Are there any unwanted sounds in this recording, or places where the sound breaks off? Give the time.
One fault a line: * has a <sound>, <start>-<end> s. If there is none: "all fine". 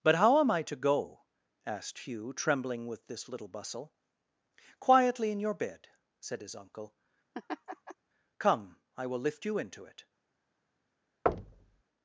* has a laugh, 7.3-7.9 s
* has a thud, 11.3-11.8 s